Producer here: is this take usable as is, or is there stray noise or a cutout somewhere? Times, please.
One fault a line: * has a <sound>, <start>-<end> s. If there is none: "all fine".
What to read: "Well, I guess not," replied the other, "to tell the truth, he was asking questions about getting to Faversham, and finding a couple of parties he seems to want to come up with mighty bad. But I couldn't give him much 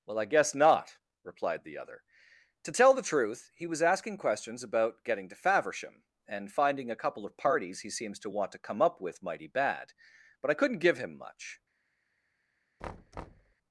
* has a thud, 12.8-13.6 s